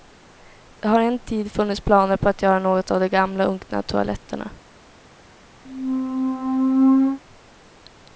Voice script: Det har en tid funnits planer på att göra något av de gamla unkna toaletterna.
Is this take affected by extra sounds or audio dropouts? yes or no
yes